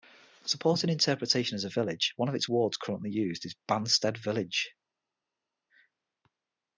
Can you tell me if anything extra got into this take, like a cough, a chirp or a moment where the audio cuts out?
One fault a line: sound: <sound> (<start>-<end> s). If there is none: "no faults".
no faults